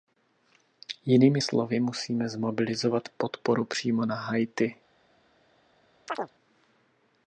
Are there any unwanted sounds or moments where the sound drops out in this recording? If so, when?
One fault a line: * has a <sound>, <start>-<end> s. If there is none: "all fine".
* has a chirp, 6.1-6.3 s